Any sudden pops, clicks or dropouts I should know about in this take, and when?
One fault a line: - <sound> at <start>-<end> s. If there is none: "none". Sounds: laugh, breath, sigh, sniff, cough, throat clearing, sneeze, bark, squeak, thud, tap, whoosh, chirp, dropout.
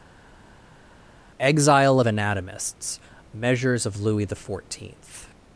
none